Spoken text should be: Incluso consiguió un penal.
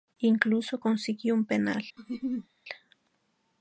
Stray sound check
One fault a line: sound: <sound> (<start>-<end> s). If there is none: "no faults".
sound: laugh (2.0-2.5 s)